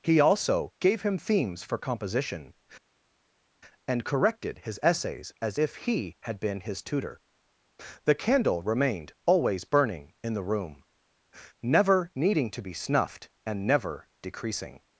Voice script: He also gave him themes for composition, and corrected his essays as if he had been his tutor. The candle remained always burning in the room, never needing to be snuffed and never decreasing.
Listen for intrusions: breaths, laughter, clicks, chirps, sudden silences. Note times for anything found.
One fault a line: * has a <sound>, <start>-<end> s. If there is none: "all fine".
all fine